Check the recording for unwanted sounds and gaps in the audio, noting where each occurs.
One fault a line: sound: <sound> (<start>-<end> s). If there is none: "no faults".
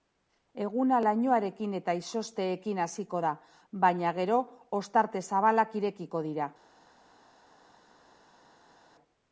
no faults